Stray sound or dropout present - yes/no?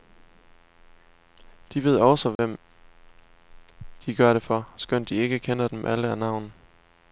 yes